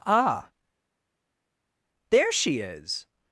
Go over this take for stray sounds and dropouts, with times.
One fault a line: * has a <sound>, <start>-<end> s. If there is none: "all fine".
all fine